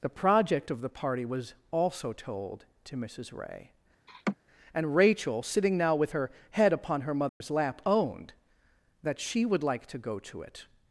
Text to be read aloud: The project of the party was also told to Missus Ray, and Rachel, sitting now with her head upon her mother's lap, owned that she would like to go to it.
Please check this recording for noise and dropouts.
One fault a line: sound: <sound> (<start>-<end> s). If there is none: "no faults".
sound: laugh (4.1-4.4 s)
sound: dropout (7.3-7.4 s)